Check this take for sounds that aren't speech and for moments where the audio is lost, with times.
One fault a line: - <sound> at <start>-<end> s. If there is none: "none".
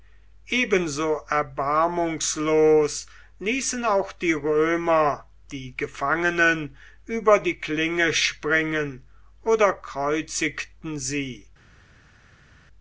none